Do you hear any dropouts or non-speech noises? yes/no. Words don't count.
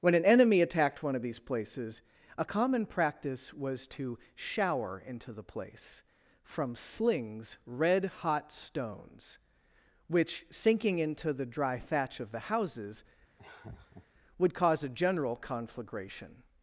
yes